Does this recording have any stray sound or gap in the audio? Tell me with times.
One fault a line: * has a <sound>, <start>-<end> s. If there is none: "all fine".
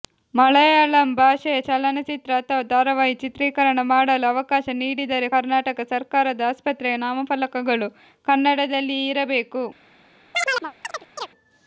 * has a chirp, 10.3-11.3 s